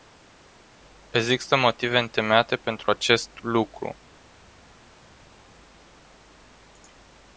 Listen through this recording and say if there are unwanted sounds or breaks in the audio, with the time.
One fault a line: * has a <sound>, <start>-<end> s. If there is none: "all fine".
all fine